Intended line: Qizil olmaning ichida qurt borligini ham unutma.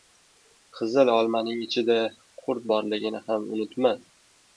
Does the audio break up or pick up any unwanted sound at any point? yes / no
no